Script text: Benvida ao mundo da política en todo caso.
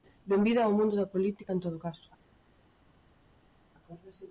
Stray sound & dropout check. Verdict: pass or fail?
pass